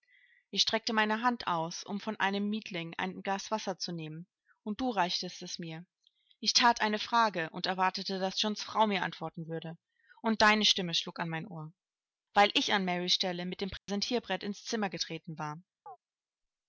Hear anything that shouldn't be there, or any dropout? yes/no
yes